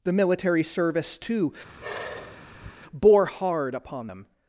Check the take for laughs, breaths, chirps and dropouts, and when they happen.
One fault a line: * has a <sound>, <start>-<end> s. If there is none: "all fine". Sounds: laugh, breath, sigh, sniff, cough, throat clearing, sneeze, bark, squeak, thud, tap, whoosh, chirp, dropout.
* has a sigh, 1.6-2.7 s